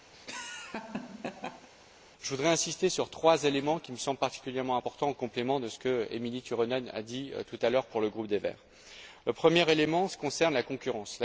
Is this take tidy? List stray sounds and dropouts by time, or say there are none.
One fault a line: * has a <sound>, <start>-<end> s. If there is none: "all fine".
* has a laugh, 0.1-1.7 s